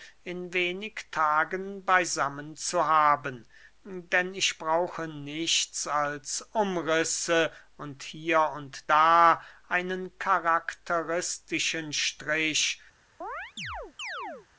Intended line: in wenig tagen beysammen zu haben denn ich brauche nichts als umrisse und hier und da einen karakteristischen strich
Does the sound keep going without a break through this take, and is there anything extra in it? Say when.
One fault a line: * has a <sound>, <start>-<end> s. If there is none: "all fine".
* has a chirp, 13.2-14.5 s